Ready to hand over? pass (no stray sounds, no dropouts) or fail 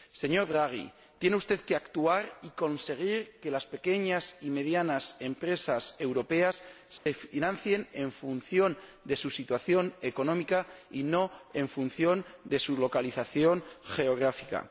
fail